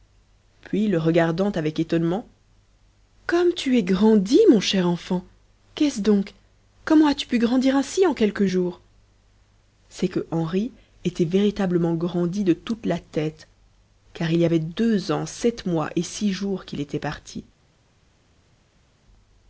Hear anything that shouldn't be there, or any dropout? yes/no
no